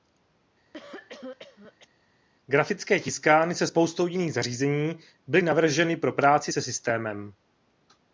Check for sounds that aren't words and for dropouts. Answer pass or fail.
fail